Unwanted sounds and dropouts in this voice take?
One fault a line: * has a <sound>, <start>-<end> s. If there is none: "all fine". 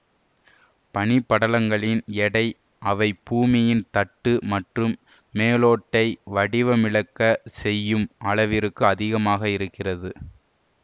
all fine